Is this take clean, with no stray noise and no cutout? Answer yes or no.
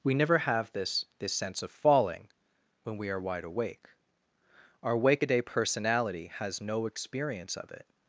yes